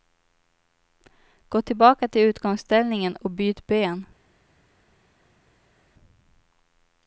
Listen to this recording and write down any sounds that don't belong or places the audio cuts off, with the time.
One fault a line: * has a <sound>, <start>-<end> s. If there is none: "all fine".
all fine